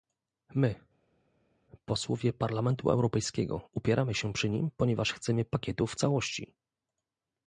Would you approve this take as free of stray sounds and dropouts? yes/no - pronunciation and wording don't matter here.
yes